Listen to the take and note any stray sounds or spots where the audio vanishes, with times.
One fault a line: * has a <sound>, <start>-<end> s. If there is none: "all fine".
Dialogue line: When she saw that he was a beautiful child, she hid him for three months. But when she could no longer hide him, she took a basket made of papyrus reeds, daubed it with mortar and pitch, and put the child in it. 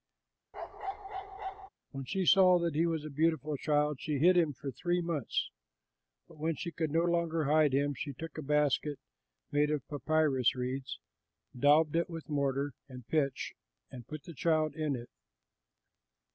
* has a bark, 0.5-1.7 s